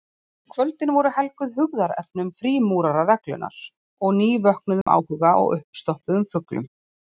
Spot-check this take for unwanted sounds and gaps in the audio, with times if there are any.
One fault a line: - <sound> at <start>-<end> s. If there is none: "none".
- dropout at 4.8-4.9 s